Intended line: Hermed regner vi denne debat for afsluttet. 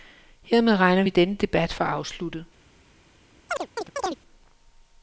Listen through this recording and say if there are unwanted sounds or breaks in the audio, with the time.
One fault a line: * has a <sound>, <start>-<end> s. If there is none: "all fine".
* has a chirp, 3.5-4.2 s